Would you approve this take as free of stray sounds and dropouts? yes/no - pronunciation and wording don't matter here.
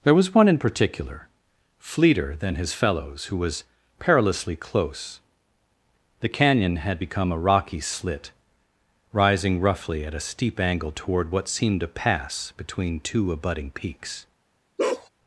no